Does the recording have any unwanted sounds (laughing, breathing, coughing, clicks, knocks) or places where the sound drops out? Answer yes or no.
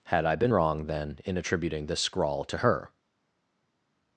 no